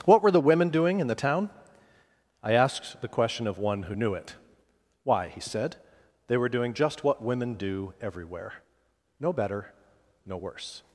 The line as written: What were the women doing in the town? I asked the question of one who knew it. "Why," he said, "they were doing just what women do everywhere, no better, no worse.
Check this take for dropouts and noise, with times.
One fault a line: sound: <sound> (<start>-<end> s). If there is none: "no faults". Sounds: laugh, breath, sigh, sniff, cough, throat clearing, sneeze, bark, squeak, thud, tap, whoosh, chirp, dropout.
no faults